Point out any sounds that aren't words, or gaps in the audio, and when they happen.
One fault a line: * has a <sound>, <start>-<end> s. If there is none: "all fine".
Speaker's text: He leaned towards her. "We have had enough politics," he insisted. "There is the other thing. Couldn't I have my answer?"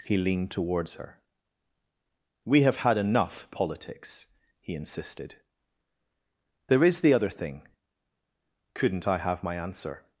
all fine